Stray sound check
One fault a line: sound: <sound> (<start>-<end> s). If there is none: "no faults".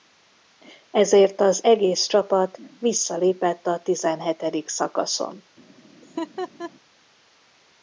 sound: laugh (6.0-6.7 s)